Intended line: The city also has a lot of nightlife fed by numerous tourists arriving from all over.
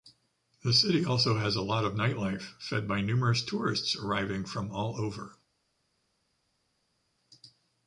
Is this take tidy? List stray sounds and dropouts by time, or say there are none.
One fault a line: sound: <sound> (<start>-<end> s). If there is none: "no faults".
no faults